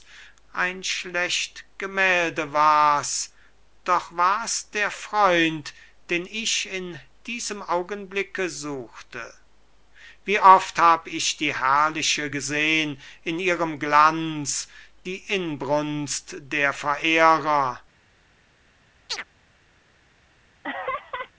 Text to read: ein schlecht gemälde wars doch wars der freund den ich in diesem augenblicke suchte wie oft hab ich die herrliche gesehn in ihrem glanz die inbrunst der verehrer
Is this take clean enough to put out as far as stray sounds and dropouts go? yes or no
no